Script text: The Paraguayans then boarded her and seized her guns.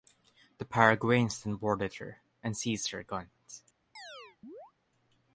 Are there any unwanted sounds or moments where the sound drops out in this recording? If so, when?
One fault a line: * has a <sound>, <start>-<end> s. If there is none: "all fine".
* has a chirp, 4.0-4.7 s